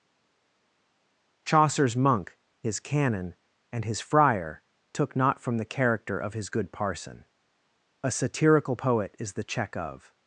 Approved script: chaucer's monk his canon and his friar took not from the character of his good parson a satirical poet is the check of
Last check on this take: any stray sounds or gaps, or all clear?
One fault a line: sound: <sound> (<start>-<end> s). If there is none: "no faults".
no faults